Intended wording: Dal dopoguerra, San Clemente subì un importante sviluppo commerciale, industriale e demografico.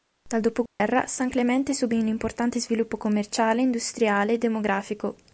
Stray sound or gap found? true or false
true